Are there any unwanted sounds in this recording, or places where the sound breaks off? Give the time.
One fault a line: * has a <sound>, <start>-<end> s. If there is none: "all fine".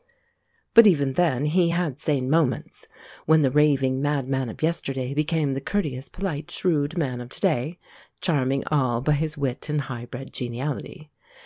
all fine